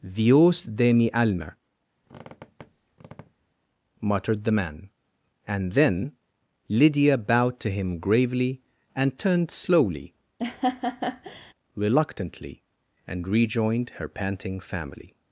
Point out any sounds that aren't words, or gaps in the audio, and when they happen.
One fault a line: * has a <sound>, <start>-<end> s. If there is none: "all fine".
* has a squeak, 2.0-3.5 s
* has a laugh, 10.4-11.5 s